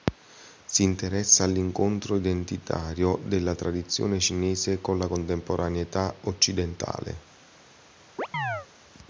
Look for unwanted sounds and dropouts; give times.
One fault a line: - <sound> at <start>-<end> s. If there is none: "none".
- chirp at 8.2-8.7 s